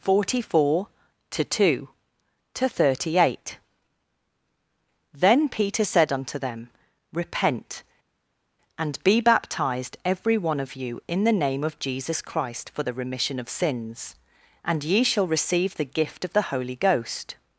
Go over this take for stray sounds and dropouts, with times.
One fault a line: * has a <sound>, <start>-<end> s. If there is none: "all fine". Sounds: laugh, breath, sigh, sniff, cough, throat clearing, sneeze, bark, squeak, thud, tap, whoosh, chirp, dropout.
all fine